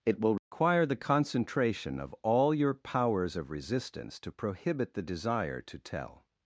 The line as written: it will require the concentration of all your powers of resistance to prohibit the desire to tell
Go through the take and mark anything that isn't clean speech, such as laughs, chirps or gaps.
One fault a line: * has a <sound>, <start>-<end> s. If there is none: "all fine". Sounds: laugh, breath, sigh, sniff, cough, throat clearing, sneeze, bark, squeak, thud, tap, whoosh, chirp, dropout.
* has a dropout, 0.4-0.5 s